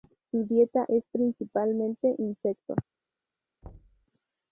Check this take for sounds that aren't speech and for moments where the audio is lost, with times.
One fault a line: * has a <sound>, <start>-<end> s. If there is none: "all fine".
* has a thud, 3.6-4.1 s